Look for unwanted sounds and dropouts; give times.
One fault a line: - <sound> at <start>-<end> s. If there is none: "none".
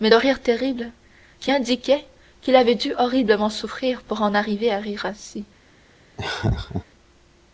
- laugh at 6.2-6.8 s